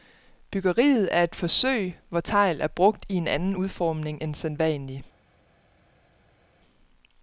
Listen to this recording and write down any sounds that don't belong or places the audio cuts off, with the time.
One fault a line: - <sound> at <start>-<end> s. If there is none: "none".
none